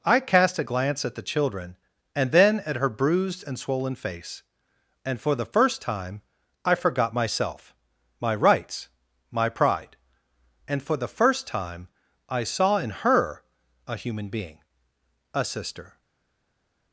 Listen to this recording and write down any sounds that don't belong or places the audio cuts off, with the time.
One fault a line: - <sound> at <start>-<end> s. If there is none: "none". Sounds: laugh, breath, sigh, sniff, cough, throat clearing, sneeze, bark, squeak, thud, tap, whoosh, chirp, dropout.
none